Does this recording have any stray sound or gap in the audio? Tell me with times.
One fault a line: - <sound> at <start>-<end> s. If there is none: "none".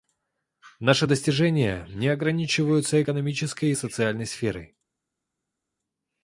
none